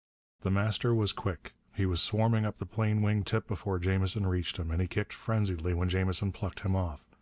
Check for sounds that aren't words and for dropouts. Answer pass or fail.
pass